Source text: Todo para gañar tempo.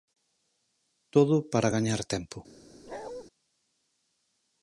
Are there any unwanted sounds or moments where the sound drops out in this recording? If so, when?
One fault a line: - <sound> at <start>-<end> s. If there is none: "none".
- bark at 2.9-3.2 s